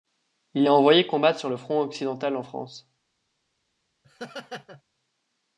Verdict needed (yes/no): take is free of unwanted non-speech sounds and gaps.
no